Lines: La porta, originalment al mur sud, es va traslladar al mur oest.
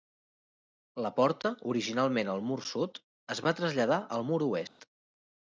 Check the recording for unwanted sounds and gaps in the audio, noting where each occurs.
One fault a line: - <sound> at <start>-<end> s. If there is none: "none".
- dropout at 4.7-4.8 s